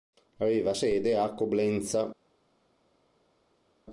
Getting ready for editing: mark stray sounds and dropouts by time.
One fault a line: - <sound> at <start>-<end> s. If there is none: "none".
none